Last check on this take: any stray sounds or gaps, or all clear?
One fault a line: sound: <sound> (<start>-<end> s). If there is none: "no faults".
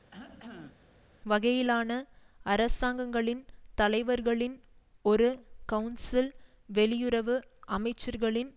sound: cough (0.1-0.9 s)